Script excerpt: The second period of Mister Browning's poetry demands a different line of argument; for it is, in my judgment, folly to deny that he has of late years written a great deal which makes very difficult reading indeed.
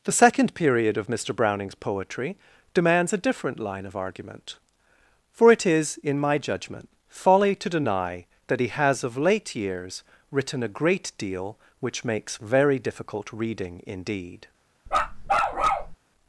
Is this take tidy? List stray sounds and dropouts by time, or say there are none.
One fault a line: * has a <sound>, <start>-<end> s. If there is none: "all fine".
* has a bark, 14.9-16.0 s